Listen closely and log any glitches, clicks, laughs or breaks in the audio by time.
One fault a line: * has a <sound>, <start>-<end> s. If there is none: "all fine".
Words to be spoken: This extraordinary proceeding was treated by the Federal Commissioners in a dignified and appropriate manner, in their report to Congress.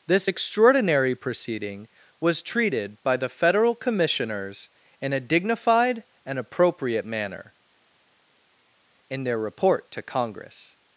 all fine